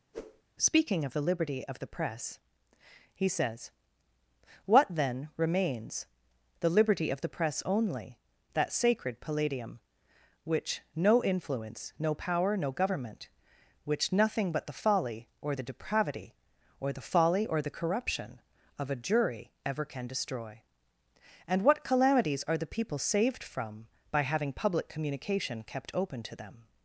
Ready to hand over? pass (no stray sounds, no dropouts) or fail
fail